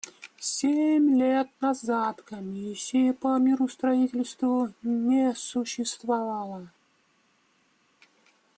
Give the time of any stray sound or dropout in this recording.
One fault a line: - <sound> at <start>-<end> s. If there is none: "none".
none